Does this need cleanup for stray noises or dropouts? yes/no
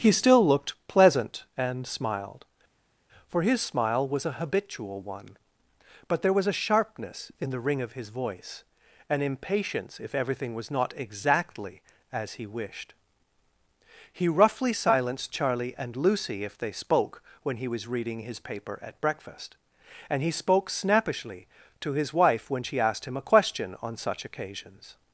no